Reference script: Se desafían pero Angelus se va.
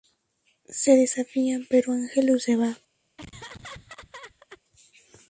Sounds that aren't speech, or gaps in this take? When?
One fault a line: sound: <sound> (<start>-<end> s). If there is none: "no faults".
sound: laugh (3.2-4.6 s)